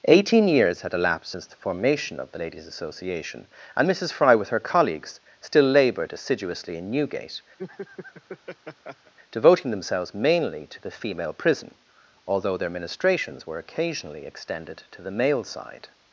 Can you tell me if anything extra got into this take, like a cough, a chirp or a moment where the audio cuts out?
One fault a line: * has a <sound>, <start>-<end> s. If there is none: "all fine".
* has a laugh, 7.6-9.1 s